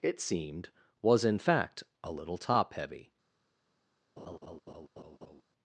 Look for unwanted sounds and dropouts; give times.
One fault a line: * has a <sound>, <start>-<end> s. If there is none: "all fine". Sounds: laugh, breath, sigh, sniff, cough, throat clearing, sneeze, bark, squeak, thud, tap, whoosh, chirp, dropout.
* has a laugh, 4.2-5.4 s